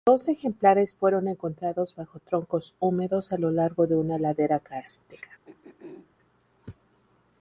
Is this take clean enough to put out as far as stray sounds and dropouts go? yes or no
no